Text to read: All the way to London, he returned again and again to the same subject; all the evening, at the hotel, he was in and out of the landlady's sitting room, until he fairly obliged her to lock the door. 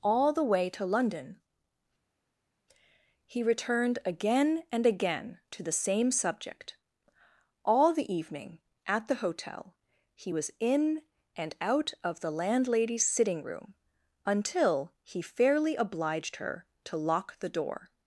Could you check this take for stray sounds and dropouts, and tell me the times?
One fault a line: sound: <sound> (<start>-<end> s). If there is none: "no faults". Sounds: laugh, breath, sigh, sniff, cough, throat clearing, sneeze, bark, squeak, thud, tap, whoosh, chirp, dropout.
no faults